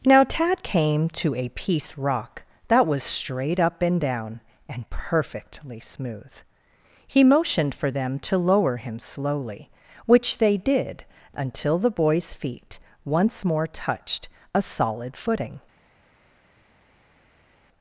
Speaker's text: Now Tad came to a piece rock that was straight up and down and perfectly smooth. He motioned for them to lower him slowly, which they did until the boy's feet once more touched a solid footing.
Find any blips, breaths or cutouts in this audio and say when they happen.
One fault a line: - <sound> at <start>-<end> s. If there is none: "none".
none